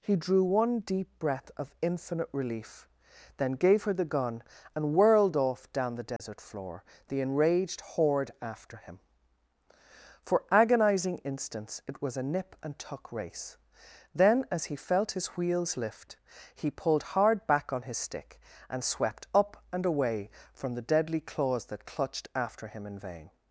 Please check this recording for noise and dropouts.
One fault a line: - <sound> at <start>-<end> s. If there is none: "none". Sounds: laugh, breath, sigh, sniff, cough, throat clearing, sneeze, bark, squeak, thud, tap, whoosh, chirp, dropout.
- dropout at 6.2-6.2 s